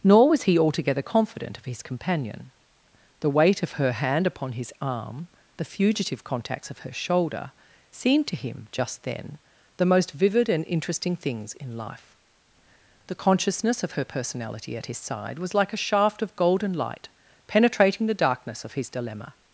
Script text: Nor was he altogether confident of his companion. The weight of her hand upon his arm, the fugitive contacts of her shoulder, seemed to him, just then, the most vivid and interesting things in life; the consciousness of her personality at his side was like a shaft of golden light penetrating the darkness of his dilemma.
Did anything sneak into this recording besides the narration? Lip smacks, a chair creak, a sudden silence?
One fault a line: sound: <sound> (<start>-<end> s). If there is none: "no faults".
no faults